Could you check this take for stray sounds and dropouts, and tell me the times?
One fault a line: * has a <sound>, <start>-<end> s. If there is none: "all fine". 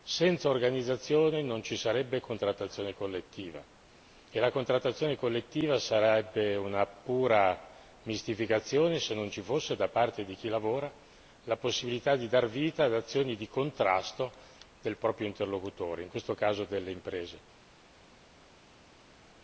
all fine